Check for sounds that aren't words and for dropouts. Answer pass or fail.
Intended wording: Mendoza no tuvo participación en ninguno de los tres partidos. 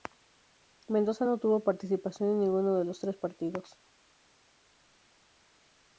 pass